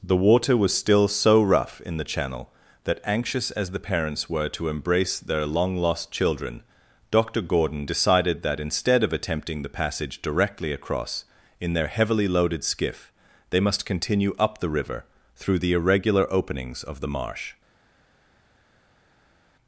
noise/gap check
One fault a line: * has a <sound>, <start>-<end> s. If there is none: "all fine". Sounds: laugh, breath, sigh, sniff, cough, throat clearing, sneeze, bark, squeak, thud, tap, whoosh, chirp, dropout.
all fine